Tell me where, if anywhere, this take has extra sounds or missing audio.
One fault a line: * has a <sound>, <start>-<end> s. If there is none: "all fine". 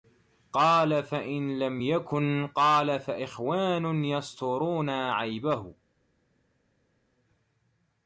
all fine